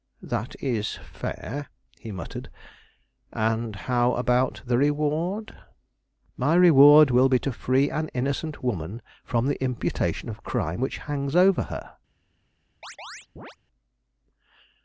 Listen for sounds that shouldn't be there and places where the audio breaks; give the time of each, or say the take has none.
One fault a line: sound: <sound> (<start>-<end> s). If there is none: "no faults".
sound: chirp (12.8-13.6 s)